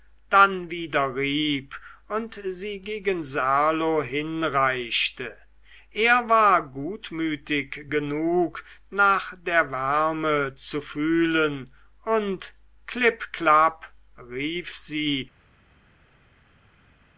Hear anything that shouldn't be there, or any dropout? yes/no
no